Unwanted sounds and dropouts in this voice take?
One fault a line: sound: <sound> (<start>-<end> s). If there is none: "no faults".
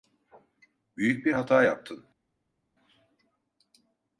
no faults